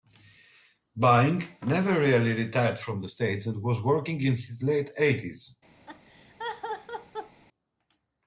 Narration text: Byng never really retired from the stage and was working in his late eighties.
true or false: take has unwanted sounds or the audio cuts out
true